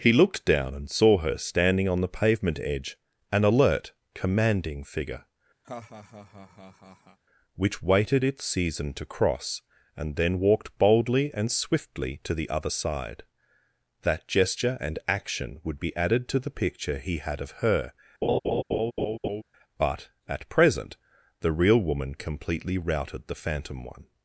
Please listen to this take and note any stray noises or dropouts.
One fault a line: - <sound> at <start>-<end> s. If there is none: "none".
- laugh at 5.6-7.2 s
- laugh at 18.2-19.4 s